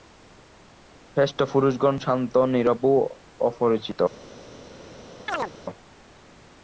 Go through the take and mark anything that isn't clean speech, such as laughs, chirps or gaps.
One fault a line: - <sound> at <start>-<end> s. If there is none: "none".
- chirp at 5.3-5.5 s